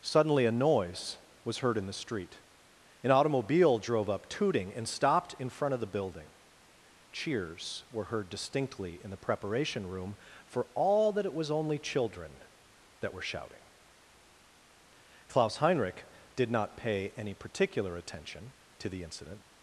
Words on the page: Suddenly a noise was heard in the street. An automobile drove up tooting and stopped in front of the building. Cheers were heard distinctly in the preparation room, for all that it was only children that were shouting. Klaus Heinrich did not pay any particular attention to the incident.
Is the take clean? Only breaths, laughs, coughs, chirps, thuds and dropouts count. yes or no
yes